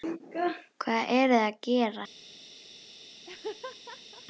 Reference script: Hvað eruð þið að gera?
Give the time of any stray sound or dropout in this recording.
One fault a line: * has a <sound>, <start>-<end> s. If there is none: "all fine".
* has a laugh, 3.2-4.3 s